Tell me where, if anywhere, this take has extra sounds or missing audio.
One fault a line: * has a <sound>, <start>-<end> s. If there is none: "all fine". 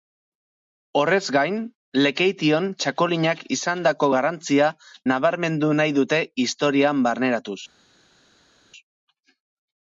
all fine